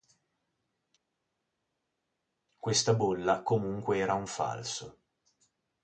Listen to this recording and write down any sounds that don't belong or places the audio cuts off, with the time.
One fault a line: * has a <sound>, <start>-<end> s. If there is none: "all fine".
all fine